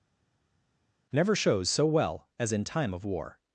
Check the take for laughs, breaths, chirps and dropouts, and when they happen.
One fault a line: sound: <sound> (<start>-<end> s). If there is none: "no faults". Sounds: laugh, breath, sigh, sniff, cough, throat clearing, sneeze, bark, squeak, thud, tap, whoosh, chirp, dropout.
no faults